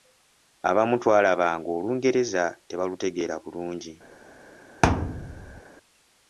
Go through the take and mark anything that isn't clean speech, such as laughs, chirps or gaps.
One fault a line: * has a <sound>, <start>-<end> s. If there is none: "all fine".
* has a thud, 4.8-5.6 s